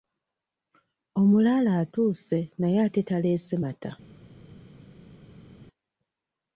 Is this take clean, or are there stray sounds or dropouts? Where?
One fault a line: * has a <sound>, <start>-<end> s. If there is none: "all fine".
all fine